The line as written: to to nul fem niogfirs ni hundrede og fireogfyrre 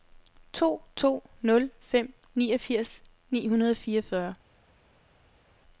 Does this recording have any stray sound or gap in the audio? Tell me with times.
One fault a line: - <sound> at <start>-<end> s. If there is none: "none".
none